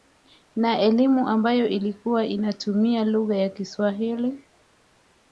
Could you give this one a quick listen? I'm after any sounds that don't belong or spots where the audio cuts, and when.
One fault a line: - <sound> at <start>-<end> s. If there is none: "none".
none